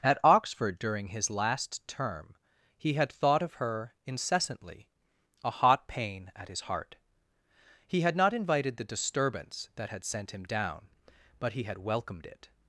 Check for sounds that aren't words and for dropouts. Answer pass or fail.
pass